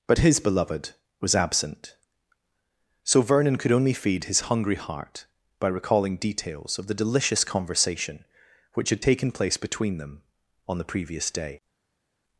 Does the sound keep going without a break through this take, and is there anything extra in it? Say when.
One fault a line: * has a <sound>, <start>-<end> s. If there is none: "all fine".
all fine